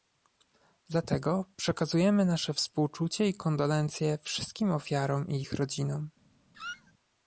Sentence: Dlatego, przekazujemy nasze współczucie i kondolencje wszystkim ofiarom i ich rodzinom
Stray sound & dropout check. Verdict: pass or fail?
fail